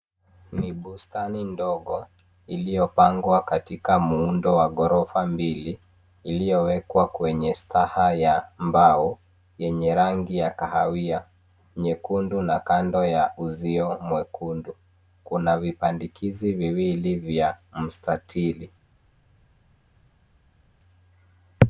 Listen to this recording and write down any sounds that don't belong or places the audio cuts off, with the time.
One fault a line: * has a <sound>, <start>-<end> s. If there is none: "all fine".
all fine